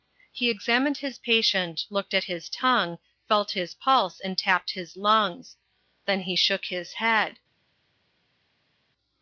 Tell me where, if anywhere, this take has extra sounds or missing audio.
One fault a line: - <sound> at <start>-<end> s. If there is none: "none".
none